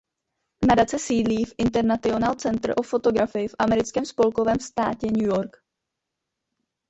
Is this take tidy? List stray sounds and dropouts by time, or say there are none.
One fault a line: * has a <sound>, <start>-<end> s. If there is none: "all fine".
all fine